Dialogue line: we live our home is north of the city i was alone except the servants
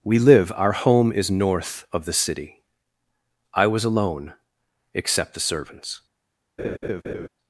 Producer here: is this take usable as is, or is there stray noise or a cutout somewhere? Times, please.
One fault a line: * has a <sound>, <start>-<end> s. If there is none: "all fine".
* has a laugh, 6.6-7.3 s